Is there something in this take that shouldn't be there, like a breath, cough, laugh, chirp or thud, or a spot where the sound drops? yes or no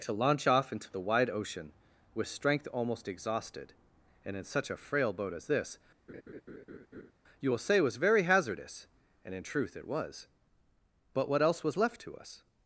yes